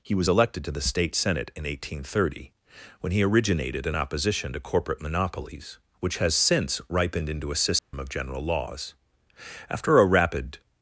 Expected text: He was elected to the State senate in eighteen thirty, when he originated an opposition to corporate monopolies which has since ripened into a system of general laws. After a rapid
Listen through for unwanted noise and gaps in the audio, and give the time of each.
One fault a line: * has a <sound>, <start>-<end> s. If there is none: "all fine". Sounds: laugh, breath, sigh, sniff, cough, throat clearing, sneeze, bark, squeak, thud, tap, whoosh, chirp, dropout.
* has a dropout, 7.8-7.9 s